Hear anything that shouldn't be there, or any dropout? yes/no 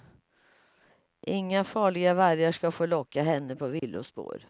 yes